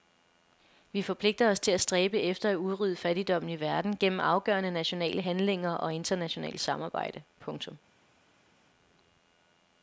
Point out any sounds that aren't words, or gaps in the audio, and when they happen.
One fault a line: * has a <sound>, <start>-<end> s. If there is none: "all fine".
all fine